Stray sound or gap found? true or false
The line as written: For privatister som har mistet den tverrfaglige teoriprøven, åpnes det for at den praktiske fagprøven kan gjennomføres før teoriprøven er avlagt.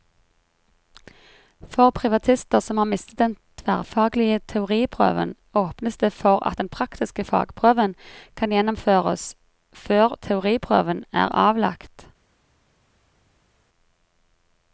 false